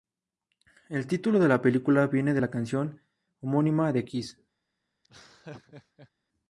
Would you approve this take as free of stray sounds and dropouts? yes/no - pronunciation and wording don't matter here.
no